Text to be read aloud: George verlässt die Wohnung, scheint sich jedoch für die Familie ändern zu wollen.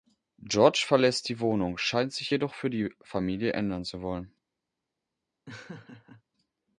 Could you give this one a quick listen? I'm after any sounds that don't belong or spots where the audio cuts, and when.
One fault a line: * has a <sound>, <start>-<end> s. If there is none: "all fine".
* has a laugh, 5.5-6.2 s